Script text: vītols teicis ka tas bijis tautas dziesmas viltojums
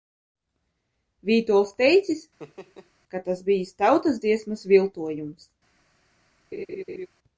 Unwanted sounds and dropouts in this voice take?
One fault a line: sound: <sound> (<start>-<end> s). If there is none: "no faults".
sound: laugh (2.4-2.9 s)
sound: laugh (6.5-7.1 s)